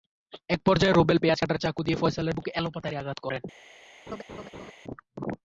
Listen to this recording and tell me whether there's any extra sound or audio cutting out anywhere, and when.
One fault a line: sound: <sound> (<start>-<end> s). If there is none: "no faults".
sound: laugh (4.1-4.7 s)